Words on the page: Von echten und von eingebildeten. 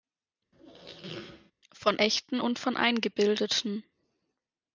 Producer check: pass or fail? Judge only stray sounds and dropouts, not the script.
fail